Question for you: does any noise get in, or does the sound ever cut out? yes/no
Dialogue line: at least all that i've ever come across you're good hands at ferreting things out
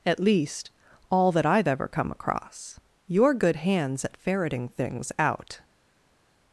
no